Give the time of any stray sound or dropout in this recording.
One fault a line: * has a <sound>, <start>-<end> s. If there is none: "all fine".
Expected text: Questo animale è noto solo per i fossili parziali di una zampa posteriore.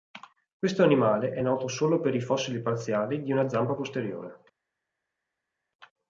all fine